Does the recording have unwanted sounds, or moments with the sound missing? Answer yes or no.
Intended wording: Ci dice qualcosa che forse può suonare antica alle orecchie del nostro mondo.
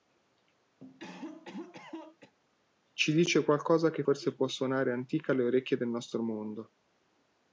yes